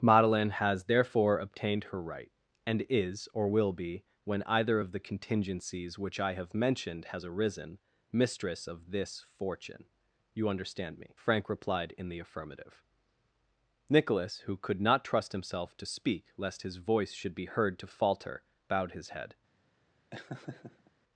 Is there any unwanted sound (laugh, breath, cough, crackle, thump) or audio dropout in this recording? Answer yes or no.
yes